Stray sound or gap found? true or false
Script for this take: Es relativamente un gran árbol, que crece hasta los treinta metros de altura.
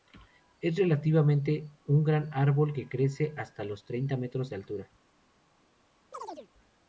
true